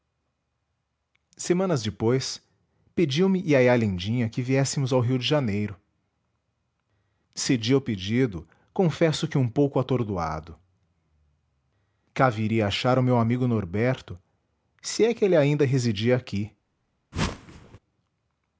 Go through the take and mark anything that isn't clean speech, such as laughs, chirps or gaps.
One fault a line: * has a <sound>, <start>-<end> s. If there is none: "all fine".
* has a whoosh, 17.1-17.8 s